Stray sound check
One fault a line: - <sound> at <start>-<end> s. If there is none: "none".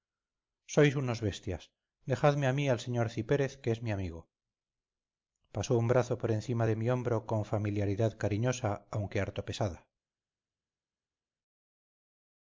none